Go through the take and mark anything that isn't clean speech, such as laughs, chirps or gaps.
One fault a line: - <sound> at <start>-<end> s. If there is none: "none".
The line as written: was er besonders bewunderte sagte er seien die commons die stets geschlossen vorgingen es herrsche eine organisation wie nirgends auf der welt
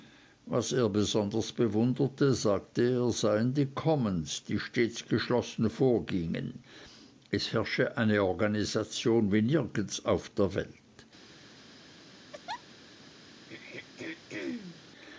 - laugh at 12.3-12.6 s
- throat clearing at 13.5-14.8 s